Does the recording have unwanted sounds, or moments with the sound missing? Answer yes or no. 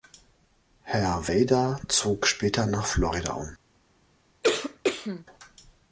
yes